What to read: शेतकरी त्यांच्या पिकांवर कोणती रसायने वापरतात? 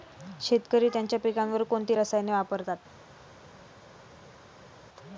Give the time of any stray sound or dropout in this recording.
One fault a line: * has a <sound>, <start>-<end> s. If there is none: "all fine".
all fine